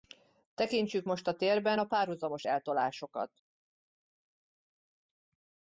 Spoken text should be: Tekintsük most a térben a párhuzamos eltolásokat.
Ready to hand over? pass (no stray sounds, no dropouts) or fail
pass